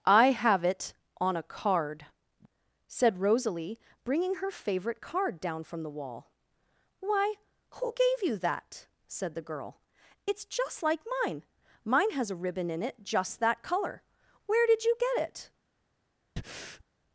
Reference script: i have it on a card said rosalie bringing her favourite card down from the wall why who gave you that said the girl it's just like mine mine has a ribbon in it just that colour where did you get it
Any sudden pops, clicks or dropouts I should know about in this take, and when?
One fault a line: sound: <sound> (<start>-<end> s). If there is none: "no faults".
sound: breath (16.4-16.8 s)